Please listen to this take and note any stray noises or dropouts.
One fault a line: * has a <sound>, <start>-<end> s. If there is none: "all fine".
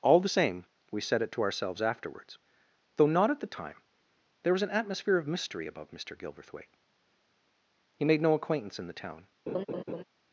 * has a laugh, 9.5-10.0 s